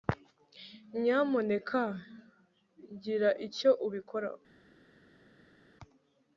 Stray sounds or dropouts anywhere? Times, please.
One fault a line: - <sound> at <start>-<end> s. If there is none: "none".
none